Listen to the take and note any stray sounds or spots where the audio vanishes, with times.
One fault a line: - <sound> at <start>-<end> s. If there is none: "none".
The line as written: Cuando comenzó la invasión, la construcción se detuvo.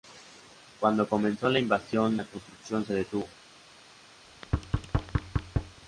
- thud at 4.2-5.8 s